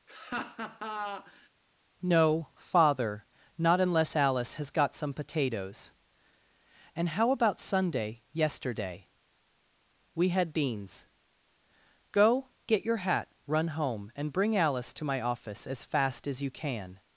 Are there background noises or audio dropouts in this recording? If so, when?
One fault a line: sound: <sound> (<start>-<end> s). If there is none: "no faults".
sound: laugh (0.1-1.5 s)